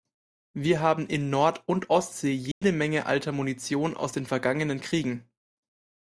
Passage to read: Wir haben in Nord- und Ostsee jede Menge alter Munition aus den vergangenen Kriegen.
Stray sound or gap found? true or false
true